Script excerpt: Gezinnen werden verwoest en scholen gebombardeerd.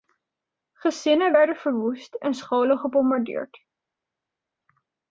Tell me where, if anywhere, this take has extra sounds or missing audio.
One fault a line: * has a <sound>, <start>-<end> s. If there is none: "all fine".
all fine